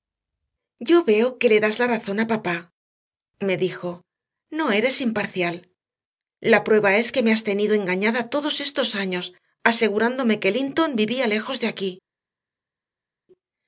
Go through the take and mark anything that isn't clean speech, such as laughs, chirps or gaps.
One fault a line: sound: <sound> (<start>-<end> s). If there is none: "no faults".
no faults